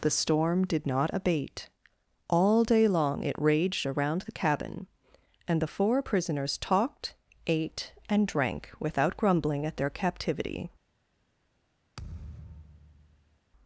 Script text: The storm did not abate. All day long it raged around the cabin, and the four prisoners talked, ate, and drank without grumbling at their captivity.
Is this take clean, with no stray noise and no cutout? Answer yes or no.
no